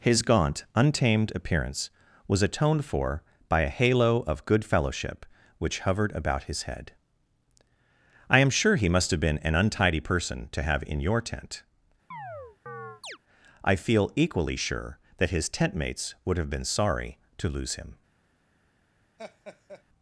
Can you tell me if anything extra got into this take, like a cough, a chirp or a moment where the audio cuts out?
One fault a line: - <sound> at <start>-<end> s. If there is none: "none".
- chirp at 12.1-13.2 s
- laugh at 19.2-19.8 s